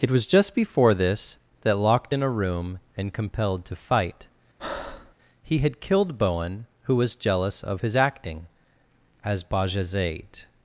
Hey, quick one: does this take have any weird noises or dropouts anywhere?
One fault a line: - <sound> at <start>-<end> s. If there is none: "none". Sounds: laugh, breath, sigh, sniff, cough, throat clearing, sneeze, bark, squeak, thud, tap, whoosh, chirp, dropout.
- breath at 4.6-5.1 s